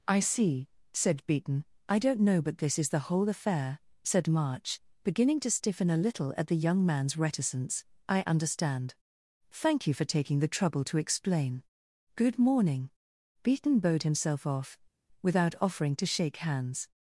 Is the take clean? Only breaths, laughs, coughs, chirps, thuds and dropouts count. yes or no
yes